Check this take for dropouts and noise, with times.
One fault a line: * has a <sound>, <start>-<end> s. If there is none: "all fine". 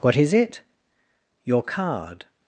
all fine